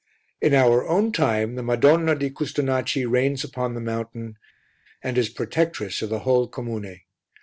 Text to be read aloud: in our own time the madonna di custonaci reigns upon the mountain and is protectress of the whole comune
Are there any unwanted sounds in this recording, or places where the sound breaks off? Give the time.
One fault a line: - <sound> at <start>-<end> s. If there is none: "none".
none